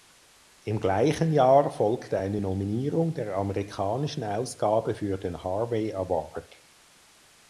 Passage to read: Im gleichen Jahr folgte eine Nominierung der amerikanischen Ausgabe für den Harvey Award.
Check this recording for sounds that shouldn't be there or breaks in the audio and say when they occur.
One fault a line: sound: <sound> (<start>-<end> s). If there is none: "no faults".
no faults